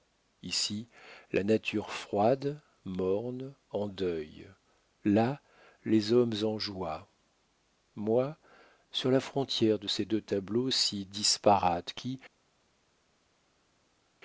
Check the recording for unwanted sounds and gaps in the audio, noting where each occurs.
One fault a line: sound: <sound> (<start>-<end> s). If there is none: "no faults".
no faults